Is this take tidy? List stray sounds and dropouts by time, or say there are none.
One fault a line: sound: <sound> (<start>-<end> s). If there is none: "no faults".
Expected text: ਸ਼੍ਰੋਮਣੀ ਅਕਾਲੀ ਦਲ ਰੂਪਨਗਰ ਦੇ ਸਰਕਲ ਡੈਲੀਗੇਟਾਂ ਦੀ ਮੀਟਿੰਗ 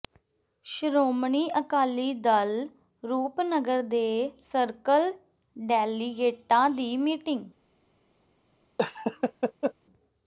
sound: laugh (8.8-9.7 s)